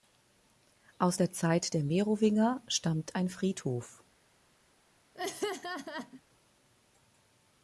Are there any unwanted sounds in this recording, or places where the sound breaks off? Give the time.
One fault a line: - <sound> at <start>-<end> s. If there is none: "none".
- laugh at 5.1-6.2 s